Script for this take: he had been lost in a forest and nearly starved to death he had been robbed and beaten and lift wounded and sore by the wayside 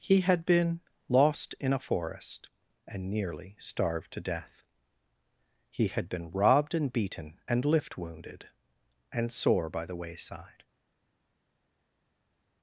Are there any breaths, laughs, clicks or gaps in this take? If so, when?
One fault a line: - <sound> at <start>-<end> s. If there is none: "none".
none